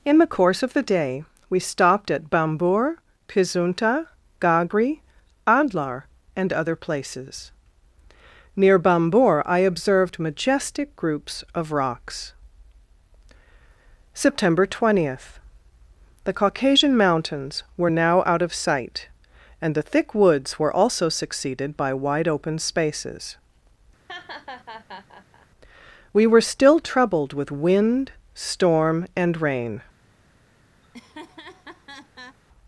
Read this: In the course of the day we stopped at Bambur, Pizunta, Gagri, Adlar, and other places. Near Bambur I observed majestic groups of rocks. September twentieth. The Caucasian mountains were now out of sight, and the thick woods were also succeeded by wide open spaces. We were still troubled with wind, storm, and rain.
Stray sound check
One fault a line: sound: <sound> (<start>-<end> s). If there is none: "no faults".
sound: laugh (24.1-25.5 s)
sound: laugh (30.8-32.4 s)